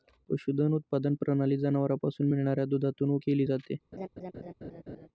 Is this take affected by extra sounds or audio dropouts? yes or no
yes